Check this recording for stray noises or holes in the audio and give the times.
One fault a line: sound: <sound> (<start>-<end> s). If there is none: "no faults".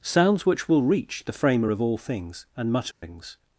sound: dropout (2.9-3.0 s)